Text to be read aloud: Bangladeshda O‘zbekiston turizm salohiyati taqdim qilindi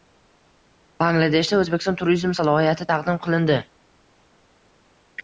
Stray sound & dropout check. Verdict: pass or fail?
pass